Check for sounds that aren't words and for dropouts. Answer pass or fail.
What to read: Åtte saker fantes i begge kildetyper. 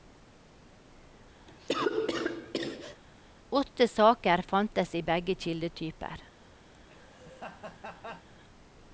fail